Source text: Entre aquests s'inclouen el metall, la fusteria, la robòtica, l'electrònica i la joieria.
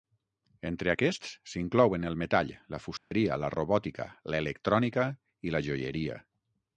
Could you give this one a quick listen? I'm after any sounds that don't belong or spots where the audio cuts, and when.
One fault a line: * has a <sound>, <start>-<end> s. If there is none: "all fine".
* has a dropout, 3.0-3.1 s